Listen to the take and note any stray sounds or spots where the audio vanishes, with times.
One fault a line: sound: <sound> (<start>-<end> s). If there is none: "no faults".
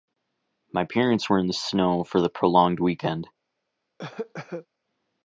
sound: cough (4.0-4.7 s)